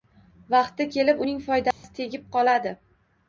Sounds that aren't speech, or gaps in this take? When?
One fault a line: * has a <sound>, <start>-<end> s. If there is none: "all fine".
* has a dropout, 1.7-1.8 s